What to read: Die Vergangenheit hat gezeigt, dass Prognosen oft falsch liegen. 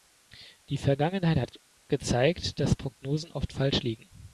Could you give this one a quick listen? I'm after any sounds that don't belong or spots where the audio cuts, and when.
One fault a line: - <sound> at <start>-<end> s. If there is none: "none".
none